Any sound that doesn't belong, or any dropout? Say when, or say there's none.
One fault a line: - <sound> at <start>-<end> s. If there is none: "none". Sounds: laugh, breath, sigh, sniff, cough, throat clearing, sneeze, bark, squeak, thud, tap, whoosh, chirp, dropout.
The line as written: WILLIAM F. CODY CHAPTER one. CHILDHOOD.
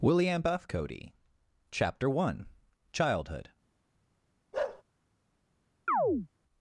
- bark at 4.5-4.8 s
- chirp at 5.9-6.3 s